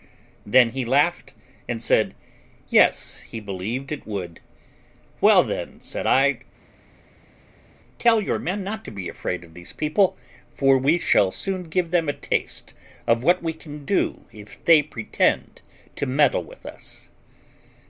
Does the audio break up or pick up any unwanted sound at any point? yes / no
no